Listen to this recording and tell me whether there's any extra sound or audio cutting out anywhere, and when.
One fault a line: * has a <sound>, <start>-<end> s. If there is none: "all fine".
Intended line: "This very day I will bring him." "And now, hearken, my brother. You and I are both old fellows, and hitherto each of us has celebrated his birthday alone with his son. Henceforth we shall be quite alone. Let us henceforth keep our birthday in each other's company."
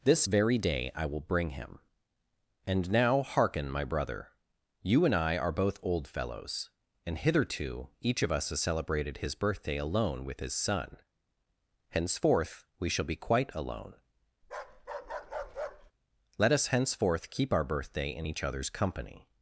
* has a bark, 14.4-15.9 s